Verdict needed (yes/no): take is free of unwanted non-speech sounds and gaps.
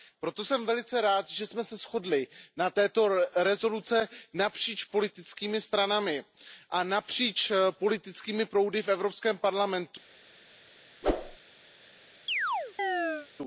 no